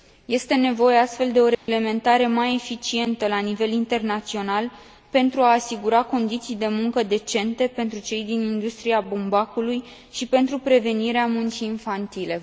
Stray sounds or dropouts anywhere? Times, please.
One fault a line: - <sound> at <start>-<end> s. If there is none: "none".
- dropout at 1.5-1.7 s